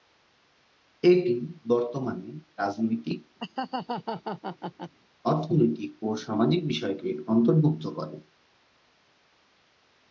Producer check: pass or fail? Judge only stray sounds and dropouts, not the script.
fail